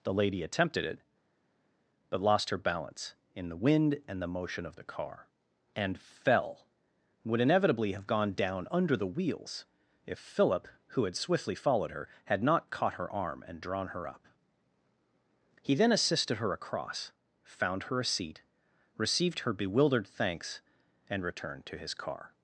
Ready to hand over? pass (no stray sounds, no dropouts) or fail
pass